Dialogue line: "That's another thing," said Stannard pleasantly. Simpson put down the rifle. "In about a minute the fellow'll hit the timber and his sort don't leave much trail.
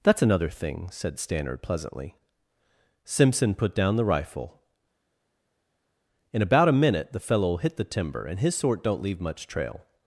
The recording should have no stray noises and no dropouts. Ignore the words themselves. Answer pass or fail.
pass